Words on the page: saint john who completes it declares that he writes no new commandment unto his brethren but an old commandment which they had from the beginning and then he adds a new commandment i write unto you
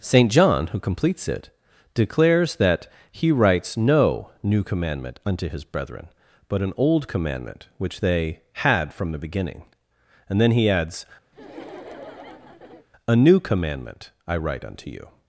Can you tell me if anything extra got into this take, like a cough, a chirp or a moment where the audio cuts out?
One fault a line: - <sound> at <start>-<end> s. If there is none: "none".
- laugh at 11.3-12.9 s